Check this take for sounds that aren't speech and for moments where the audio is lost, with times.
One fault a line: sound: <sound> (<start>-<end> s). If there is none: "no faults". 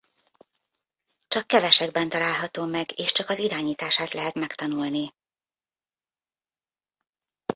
no faults